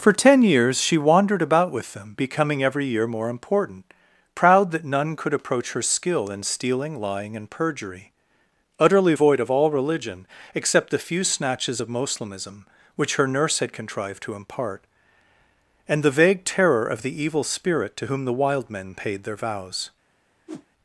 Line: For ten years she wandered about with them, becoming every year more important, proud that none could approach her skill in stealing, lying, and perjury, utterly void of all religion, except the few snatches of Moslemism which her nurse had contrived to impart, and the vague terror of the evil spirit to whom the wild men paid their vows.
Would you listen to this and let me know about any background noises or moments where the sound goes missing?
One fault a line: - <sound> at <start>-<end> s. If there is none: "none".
- whoosh at 20.5-20.7 s